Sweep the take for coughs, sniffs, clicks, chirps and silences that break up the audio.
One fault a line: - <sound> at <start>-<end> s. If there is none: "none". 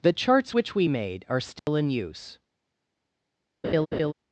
- dropout at 1.6-1.7 s
- laugh at 3.6-4.1 s